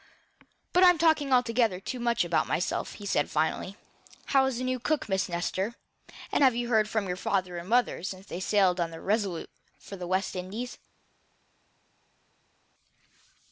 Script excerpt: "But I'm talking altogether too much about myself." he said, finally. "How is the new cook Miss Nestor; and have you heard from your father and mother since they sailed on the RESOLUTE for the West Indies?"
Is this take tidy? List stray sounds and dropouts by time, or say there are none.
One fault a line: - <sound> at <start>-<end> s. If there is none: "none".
none